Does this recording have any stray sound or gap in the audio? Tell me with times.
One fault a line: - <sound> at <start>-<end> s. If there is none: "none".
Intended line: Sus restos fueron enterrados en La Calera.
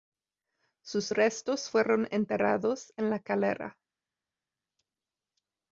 none